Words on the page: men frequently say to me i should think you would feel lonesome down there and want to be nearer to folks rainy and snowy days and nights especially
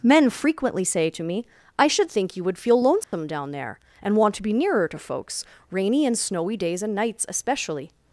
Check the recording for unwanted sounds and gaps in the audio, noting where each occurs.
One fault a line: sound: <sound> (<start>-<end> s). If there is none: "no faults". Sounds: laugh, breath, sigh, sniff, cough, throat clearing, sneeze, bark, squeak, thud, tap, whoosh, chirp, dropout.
sound: dropout (3.0-3.1 s)